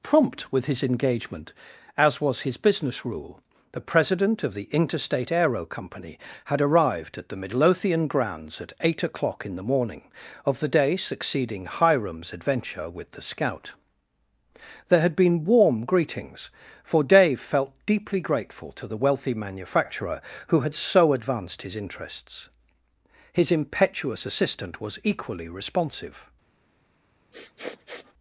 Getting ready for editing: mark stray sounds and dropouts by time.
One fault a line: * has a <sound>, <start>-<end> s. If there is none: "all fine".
* has a sniff, 27.3-28.1 s